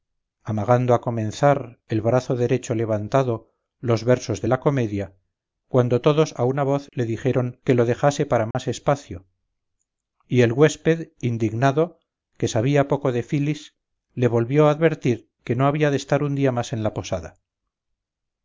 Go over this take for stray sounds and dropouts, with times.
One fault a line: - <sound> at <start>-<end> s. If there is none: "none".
- dropout at 8.5-8.5 s